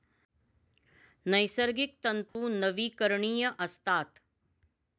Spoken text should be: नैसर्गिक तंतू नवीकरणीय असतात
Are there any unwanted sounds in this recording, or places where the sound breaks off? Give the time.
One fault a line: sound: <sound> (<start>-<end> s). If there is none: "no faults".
sound: dropout (2.3-2.4 s)